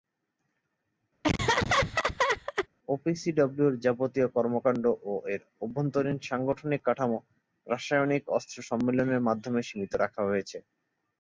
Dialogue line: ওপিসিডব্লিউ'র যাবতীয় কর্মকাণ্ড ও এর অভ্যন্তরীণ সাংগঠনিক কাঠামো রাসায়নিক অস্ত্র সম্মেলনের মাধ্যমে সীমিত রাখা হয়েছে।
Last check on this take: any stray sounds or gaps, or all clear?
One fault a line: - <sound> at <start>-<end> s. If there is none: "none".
- laugh at 1.2-2.7 s